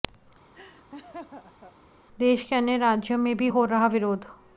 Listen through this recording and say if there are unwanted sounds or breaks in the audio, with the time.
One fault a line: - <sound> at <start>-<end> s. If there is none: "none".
- laugh at 0.5-1.7 s